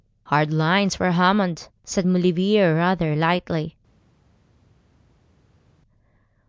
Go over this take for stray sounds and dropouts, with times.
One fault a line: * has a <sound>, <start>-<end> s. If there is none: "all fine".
all fine